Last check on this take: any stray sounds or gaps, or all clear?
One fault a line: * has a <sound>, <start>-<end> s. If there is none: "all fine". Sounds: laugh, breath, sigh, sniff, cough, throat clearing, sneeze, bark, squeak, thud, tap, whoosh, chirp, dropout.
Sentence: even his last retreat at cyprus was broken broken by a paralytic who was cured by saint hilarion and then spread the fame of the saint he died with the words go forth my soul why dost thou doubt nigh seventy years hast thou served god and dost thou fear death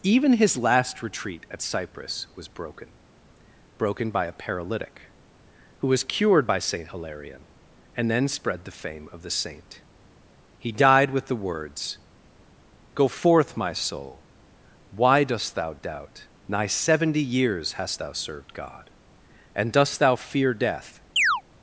* has a chirp, 21.2-21.4 s